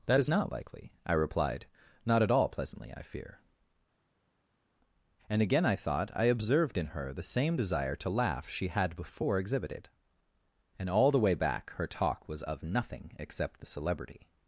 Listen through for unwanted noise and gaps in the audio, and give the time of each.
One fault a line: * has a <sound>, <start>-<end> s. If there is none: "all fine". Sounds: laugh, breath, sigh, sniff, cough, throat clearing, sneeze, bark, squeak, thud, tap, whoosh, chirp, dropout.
all fine